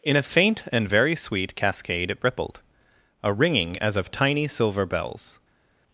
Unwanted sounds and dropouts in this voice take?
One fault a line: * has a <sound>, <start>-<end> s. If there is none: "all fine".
all fine